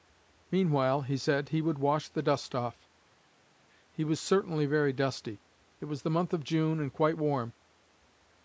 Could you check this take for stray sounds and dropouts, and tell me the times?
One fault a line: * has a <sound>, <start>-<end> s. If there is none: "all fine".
all fine